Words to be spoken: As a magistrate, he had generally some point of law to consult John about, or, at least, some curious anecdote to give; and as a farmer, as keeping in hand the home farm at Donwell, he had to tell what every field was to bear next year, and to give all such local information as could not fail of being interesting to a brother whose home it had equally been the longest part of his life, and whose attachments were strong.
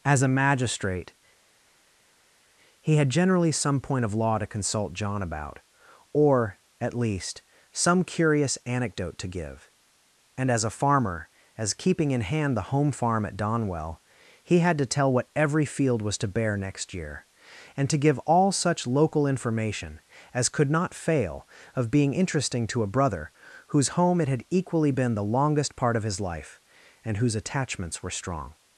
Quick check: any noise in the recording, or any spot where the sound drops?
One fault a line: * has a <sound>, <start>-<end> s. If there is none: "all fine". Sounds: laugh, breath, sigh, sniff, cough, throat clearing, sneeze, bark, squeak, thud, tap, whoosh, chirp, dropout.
all fine